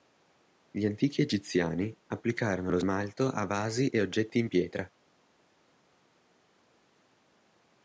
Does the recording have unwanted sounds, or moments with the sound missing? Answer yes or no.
no